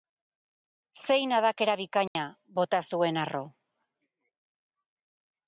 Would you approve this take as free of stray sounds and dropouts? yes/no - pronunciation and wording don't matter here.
no